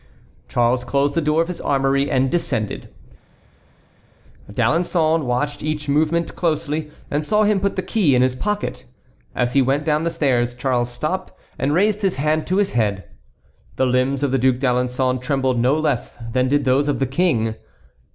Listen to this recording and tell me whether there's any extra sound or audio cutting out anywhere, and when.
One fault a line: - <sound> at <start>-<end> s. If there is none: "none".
none